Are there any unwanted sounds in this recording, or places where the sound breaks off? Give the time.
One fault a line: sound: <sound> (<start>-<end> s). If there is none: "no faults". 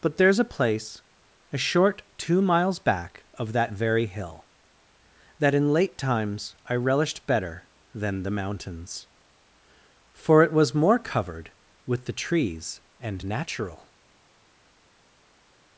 no faults